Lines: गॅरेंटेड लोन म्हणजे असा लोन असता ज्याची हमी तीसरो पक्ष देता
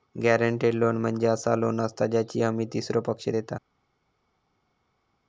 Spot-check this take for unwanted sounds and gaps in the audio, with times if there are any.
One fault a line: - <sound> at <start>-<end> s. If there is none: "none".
none